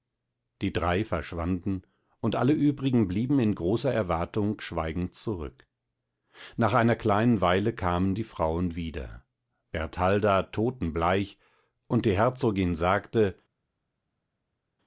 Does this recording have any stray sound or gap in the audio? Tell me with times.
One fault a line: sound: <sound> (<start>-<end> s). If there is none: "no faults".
no faults